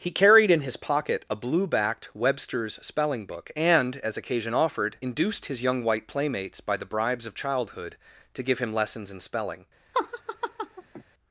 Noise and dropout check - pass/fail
fail